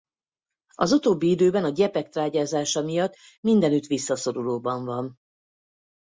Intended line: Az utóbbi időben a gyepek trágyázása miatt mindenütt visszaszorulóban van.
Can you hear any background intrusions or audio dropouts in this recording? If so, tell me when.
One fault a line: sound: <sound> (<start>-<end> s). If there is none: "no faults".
no faults